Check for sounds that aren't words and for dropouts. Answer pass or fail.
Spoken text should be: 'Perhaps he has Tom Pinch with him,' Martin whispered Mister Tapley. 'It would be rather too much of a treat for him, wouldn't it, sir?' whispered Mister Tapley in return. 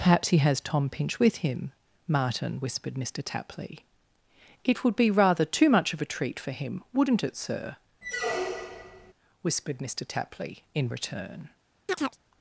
fail